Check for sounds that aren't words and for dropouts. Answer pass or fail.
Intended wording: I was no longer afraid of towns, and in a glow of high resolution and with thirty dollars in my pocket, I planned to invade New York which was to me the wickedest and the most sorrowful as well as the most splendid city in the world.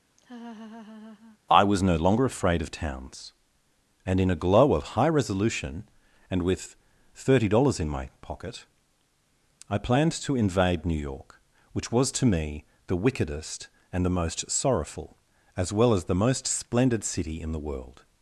fail